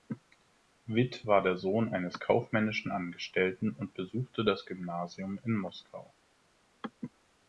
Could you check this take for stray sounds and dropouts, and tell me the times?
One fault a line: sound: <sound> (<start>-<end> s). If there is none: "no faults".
no faults